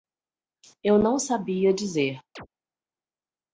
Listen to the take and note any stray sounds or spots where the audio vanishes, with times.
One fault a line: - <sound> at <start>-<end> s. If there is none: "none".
- chirp at 2.4-2.5 s